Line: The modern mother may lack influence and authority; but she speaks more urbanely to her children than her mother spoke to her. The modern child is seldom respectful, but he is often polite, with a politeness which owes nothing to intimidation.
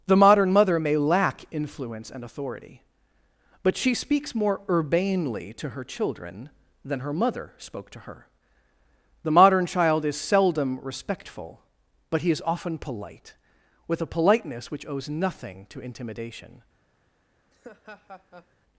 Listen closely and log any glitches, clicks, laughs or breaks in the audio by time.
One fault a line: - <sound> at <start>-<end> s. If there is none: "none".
- laugh at 17.5-18.6 s